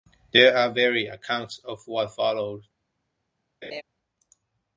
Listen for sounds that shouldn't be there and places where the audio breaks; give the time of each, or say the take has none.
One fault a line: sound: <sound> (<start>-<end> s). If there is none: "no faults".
sound: laugh (3.6-3.8 s)